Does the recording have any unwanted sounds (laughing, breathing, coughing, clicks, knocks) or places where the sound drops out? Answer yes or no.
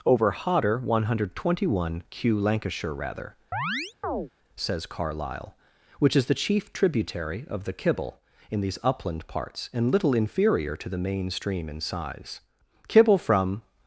yes